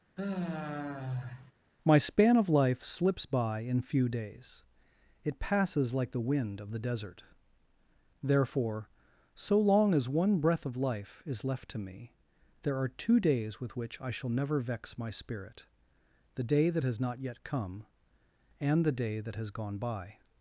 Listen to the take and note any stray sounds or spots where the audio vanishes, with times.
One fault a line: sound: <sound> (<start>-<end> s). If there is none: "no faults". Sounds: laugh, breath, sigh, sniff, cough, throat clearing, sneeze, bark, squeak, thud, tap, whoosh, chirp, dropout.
sound: sigh (0.2-1.5 s)